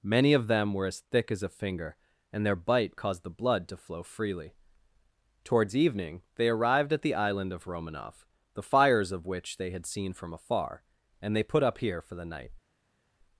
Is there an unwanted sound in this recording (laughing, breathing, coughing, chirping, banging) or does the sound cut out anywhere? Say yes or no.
no